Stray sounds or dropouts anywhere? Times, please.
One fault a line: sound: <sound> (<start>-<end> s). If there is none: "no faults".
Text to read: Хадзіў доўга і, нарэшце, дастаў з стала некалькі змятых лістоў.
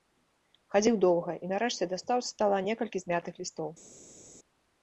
no faults